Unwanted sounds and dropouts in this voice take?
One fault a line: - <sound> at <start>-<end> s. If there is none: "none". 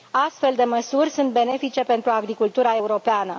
none